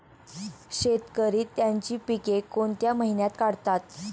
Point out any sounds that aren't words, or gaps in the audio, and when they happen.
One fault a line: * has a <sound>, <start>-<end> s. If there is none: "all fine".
all fine